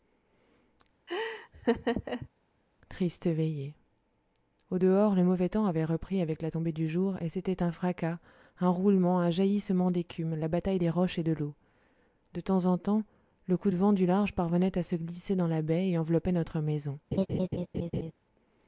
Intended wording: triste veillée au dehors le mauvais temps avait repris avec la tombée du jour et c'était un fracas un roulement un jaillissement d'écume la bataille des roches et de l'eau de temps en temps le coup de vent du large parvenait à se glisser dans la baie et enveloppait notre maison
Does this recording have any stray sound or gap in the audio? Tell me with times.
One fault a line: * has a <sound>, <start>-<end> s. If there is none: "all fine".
* has a laugh, 1.1-2.3 s
* has a laugh, 17.1-18.1 s